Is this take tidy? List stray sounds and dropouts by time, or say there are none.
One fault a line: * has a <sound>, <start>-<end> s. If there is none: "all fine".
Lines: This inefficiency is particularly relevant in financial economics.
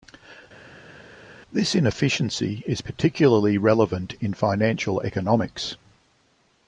all fine